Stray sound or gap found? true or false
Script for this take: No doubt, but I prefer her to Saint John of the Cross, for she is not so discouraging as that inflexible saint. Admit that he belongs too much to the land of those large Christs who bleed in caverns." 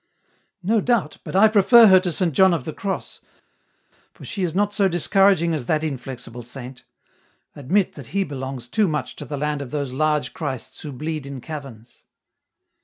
false